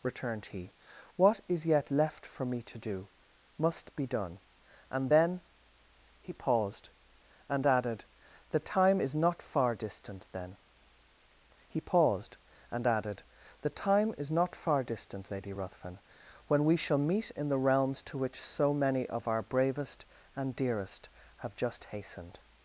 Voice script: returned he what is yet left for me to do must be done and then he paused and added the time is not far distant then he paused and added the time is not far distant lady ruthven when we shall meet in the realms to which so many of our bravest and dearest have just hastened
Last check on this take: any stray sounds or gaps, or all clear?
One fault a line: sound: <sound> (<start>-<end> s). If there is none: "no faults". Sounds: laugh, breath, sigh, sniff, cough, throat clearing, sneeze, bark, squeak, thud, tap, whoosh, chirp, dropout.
no faults